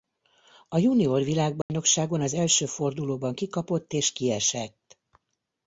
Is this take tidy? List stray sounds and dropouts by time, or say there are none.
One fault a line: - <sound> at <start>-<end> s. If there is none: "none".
- dropout at 1.6-1.7 s